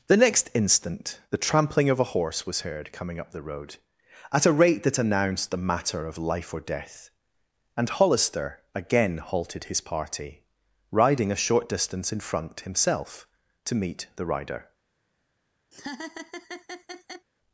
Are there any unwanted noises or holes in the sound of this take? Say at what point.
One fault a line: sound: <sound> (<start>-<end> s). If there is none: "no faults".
sound: laugh (15.7-17.3 s)